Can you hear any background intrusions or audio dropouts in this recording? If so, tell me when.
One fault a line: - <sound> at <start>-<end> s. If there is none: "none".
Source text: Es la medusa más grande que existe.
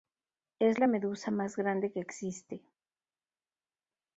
none